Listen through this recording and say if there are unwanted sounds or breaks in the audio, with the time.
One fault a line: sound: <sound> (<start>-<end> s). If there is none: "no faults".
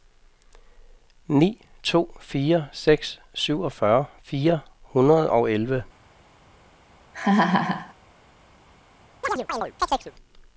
sound: laugh (7.1-7.9 s)
sound: chirp (9.2-10.1 s)